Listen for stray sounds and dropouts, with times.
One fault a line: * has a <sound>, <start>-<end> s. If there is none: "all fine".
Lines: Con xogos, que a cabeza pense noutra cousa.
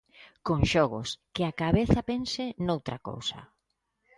all fine